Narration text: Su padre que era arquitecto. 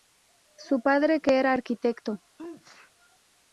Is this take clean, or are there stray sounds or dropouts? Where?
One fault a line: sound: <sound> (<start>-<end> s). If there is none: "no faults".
sound: sneeze (2.4-2.9 s)